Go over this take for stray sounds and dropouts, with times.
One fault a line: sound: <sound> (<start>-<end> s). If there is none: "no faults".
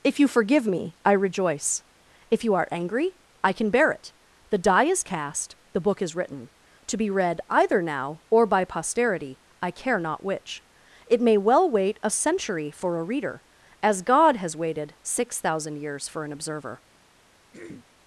sound: throat clearing (17.5-17.8 s)